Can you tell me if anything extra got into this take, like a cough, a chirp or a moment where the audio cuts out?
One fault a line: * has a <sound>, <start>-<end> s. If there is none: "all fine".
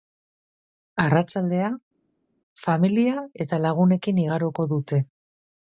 all fine